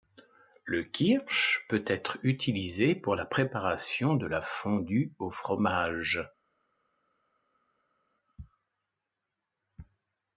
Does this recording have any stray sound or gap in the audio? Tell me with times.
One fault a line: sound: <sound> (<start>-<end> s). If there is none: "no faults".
no faults